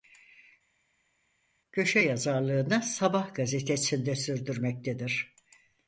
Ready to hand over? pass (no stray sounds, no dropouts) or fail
pass